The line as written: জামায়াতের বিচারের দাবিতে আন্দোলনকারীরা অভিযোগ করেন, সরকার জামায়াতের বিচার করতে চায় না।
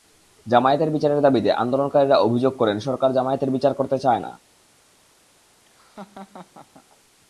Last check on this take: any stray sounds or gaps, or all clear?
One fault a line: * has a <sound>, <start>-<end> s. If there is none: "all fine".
* has a laugh, 5.7-6.9 s